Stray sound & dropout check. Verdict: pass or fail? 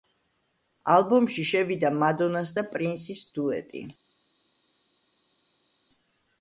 pass